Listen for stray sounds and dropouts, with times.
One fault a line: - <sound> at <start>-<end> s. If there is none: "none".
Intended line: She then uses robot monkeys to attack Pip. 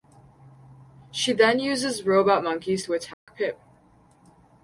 - dropout at 3.1-3.3 s